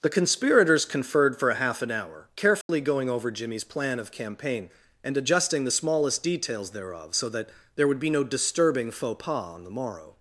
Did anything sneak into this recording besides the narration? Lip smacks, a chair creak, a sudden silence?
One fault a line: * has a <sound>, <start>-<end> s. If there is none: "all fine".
* has a dropout, 2.6-2.7 s